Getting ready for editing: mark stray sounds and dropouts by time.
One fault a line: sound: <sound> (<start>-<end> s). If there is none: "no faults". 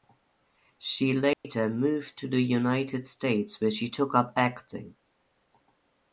sound: dropout (1.3-1.4 s)